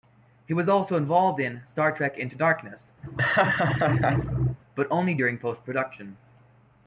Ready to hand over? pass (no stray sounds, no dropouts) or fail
fail